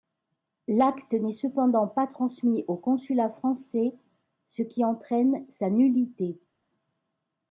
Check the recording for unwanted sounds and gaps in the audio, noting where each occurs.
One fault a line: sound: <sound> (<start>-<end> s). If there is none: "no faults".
no faults